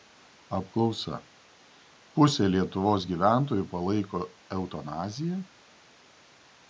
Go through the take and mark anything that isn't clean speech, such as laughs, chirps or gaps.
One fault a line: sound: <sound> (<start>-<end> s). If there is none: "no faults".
no faults